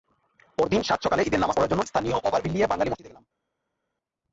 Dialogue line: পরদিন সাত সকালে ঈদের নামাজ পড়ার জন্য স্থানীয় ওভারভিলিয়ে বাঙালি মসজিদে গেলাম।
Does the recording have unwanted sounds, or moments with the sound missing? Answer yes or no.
no